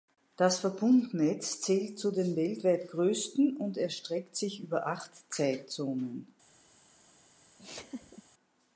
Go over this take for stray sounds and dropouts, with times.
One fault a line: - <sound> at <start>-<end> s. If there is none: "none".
- laugh at 7.6-8.2 s